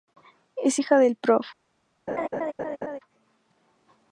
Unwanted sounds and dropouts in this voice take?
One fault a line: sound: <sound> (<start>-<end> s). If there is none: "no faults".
sound: laugh (2.1-3.0 s)